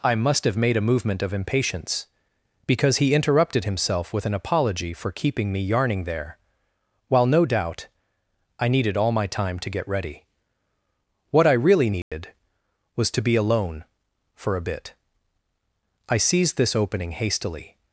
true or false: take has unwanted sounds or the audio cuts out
true